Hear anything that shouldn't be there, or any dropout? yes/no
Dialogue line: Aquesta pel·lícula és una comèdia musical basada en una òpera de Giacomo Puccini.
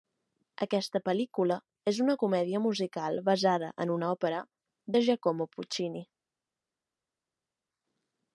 no